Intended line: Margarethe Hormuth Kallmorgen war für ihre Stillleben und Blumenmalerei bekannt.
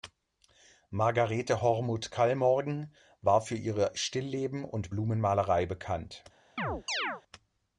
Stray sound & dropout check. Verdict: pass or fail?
fail